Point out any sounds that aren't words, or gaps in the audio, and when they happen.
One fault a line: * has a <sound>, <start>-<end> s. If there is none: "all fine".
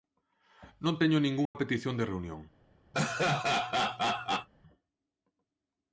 * has a dropout, 1.5-1.6 s
* has a laugh, 2.9-4.5 s